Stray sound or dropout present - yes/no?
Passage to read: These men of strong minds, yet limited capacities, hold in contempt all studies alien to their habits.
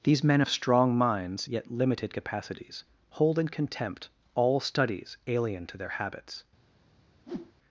yes